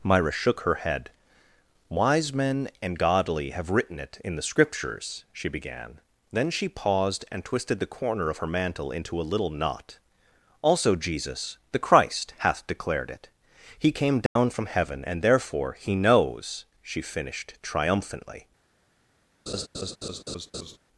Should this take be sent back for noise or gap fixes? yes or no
yes